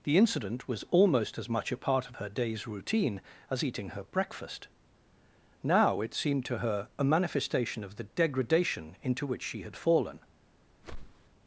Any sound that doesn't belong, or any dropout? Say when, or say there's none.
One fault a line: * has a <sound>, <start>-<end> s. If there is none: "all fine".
* has a whoosh, 10.8-11.3 s